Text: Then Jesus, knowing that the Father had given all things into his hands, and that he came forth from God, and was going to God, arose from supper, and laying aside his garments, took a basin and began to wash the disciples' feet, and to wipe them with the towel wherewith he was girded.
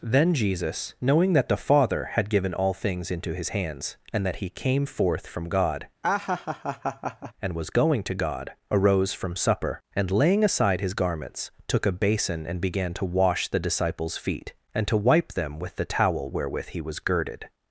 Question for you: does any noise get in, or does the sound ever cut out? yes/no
yes